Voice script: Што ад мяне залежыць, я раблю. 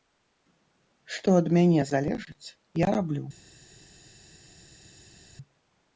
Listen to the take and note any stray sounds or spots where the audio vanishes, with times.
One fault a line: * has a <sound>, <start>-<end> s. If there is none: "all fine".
all fine